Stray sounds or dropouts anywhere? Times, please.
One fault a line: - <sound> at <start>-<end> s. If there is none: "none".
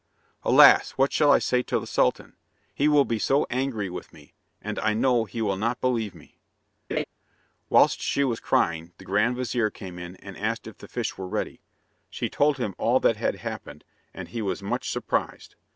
- laugh at 6.9-7.0 s